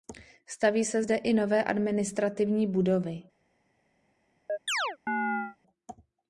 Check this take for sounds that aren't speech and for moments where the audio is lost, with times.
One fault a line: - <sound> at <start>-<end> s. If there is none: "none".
- chirp at 4.5-5.6 s